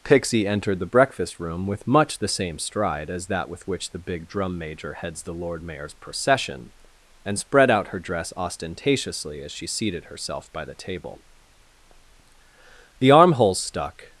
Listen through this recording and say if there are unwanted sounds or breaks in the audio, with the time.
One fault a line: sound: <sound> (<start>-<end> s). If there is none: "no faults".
no faults